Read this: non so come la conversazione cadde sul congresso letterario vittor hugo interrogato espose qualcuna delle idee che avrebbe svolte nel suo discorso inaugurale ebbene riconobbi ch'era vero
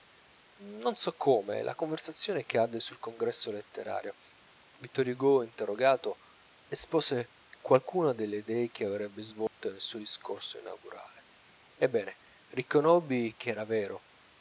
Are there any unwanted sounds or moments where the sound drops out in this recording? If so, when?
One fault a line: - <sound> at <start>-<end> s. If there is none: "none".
- dropout at 9.5-9.6 s